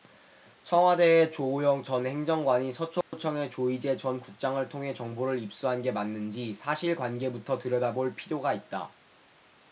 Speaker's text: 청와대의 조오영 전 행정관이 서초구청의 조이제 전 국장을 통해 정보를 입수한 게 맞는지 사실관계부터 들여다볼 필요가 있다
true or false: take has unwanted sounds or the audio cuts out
true